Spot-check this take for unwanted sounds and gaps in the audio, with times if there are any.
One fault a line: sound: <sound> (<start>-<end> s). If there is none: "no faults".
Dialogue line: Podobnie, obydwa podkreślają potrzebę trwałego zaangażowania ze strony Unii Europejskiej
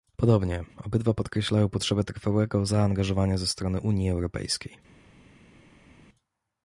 no faults